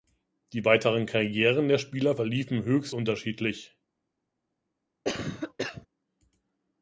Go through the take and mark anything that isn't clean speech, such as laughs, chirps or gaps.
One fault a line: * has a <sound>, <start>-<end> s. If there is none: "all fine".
* has a cough, 5.0-5.9 s